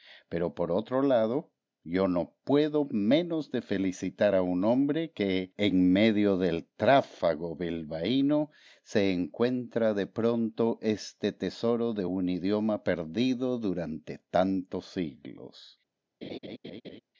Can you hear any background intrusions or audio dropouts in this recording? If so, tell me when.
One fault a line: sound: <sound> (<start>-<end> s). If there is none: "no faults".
sound: laugh (16.2-17.0 s)